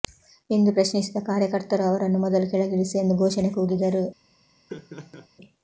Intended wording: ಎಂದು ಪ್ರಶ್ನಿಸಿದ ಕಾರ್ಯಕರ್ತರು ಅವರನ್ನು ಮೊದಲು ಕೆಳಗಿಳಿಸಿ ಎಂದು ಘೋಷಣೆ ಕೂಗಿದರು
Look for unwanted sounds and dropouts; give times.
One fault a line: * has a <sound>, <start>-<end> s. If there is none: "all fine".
* has a laugh, 4.7-5.3 s